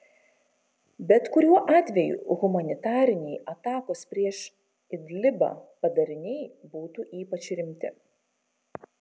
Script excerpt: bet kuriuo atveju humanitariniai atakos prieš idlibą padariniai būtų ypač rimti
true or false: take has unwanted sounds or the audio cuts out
false